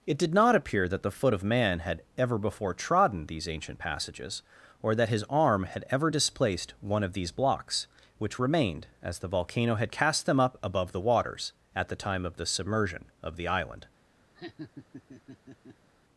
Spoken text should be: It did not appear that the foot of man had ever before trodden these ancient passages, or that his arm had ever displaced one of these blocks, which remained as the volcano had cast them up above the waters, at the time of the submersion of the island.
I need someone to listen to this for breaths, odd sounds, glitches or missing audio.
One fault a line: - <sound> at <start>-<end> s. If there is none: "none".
- laugh at 14.3-15.9 s